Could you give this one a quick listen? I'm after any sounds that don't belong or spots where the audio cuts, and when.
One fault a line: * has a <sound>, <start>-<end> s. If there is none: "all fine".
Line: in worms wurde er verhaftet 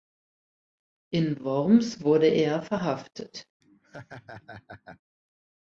* has a laugh, 3.6-5.0 s